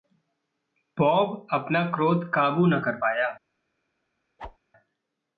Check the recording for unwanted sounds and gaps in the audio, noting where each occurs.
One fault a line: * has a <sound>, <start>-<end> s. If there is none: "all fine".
* has a whoosh, 4.4-4.6 s